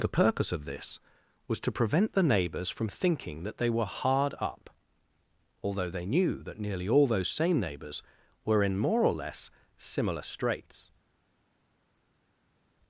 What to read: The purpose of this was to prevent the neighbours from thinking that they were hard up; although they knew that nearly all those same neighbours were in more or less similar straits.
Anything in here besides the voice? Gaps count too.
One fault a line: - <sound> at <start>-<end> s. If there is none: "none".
none